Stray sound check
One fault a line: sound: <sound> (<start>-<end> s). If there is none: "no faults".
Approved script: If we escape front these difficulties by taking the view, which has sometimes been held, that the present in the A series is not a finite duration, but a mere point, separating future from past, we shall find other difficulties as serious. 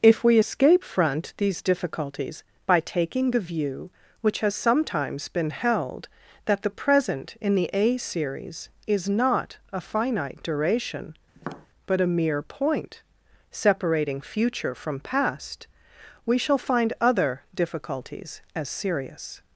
sound: tap (11.3-11.7 s)